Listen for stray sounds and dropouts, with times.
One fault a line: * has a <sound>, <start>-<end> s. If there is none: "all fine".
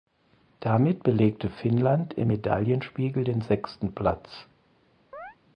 * has a chirp, 5.1-5.4 s